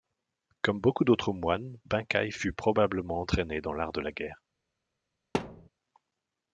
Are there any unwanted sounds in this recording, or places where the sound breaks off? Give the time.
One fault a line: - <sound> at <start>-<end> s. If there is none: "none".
- thud at 5.3-5.7 s